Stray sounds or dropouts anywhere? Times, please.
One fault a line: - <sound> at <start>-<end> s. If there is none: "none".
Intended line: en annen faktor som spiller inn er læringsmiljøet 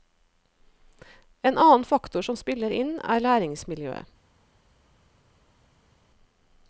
none